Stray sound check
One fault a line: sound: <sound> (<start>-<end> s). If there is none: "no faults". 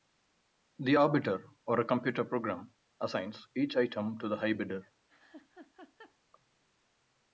sound: laugh (5.1-6.2 s)